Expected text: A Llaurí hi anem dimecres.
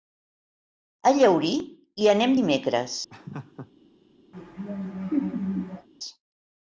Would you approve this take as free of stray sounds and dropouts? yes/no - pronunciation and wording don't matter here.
no